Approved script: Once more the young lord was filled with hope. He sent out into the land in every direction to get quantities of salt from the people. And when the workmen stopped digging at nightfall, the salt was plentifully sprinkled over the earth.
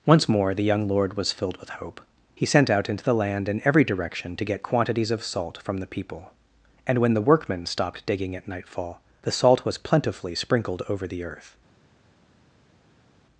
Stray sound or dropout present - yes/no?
no